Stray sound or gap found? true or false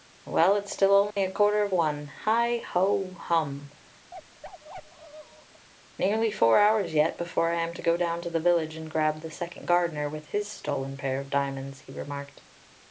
true